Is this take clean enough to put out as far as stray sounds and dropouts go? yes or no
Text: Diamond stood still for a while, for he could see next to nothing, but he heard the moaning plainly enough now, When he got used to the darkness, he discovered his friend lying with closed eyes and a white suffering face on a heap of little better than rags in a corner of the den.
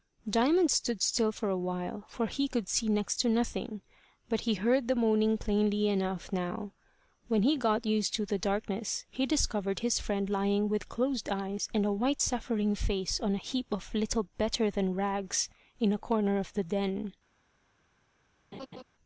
no